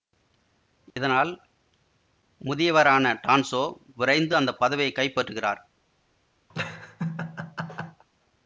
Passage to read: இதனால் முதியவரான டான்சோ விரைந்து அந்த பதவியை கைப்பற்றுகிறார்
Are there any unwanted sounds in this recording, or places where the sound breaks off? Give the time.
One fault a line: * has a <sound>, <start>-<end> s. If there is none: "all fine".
* has a dropout, 0.9-1.0 s
* has a laugh, 6.5-8.0 s